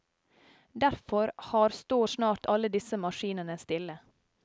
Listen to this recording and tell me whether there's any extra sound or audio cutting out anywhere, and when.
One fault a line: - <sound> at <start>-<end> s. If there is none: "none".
none